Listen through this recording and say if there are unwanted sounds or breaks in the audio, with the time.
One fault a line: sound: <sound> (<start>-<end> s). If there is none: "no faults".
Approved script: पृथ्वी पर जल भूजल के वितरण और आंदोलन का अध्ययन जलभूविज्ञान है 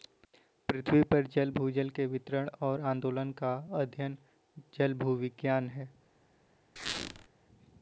sound: squeak (6.8-7.3 s)